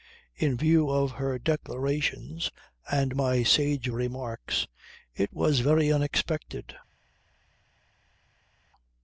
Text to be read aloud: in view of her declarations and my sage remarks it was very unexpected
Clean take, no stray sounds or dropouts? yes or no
yes